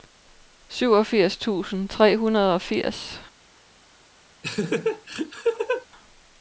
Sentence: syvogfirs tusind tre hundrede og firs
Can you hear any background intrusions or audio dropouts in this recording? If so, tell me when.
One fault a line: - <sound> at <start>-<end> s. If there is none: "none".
- laugh at 4.4-5.9 s